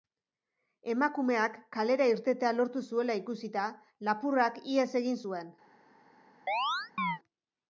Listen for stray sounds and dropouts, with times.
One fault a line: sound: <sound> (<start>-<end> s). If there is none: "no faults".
sound: chirp (6.5-7.2 s)